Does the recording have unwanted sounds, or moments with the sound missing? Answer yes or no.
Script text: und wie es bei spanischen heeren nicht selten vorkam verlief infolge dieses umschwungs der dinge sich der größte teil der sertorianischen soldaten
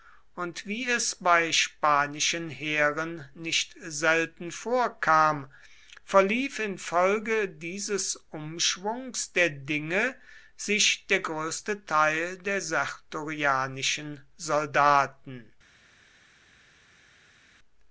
no